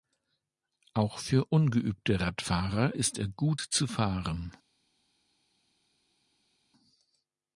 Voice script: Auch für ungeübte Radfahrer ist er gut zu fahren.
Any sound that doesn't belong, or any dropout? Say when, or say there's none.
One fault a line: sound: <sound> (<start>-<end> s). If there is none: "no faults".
no faults